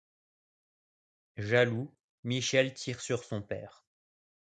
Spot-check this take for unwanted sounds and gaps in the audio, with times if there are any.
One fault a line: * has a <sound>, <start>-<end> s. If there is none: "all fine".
all fine